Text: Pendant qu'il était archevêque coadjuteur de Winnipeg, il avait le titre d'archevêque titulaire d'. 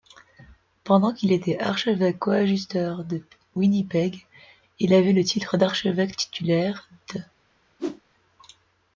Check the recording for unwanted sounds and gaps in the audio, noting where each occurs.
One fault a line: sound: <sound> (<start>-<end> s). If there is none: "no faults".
sound: whoosh (7.8-8.0 s)